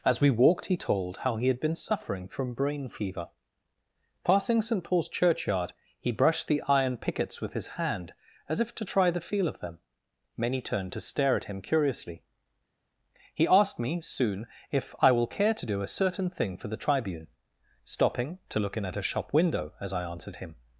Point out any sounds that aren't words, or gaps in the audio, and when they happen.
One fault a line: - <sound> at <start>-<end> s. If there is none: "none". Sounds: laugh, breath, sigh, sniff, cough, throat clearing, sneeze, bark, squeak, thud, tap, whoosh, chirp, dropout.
none